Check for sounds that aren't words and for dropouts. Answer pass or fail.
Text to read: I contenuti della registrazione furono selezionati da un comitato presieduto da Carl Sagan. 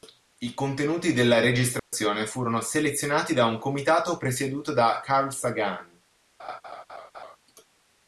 fail